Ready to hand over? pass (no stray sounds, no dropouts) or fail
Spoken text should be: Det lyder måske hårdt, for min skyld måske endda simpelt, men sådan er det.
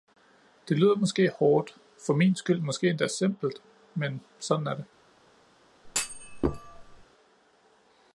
fail